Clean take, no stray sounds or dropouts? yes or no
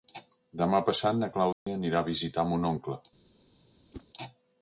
no